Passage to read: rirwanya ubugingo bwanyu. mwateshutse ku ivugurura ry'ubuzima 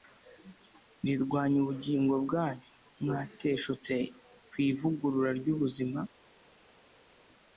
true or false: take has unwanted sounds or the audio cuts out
false